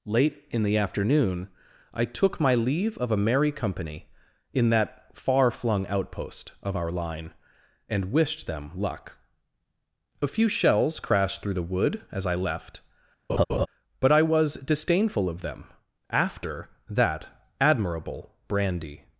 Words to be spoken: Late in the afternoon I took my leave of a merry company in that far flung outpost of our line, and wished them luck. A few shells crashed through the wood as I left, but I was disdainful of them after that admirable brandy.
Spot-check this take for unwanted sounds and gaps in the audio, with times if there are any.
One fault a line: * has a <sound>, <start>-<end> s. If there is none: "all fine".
* has a laugh, 13.3-13.7 s